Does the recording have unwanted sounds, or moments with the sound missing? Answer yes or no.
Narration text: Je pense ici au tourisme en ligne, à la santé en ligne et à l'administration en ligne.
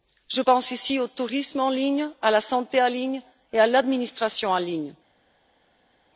no